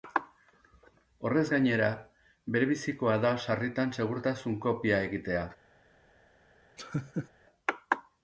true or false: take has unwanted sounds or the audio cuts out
true